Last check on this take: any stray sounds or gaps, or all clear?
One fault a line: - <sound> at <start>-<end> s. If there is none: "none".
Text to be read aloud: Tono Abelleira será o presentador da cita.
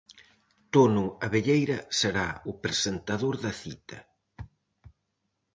none